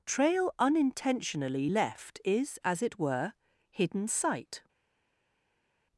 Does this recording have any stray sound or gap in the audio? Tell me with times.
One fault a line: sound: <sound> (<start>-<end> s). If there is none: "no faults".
no faults